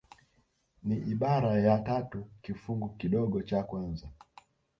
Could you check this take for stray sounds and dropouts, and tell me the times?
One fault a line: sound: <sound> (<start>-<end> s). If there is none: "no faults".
no faults